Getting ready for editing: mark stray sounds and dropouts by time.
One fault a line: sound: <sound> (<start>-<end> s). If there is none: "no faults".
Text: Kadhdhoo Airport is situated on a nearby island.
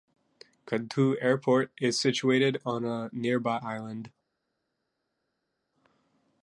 no faults